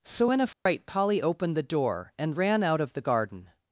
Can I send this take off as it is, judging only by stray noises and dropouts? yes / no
no